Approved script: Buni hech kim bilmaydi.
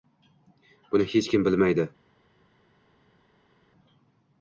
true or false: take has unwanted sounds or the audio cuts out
false